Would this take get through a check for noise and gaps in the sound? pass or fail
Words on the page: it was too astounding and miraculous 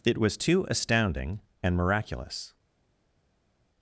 pass